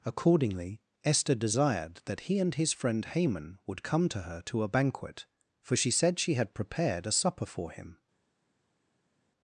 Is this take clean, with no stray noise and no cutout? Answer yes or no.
yes